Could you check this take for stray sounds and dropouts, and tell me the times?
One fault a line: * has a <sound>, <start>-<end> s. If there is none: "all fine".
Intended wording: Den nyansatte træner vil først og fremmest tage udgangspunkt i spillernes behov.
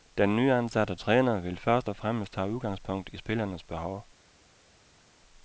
all fine